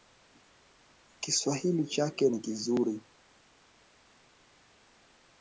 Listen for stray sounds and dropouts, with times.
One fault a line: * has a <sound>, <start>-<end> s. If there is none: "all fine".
all fine